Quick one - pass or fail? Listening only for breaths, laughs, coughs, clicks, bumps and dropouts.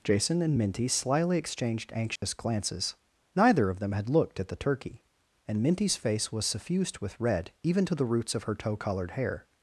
fail